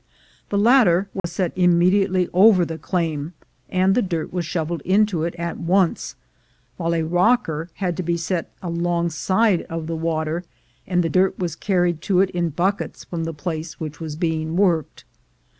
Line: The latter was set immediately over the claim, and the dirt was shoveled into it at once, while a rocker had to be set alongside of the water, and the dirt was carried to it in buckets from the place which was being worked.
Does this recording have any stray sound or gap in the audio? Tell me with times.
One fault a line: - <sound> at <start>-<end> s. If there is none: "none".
- dropout at 1.2-1.2 s